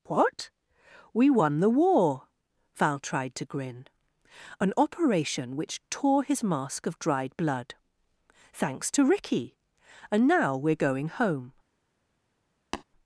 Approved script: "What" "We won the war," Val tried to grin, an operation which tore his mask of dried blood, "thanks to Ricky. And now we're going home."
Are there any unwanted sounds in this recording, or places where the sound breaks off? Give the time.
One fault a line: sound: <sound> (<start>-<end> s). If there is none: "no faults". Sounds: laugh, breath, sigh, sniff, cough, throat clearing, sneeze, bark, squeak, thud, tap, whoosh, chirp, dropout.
sound: tap (12.7-12.8 s)